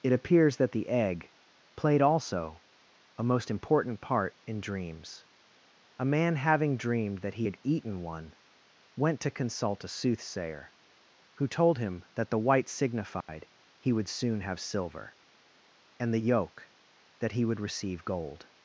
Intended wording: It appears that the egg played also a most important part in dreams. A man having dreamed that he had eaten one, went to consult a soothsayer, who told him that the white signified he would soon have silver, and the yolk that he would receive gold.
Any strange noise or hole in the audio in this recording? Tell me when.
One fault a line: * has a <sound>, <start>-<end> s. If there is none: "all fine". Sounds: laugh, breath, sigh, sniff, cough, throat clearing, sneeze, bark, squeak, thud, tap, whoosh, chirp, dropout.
* has a dropout, 13.2-13.3 s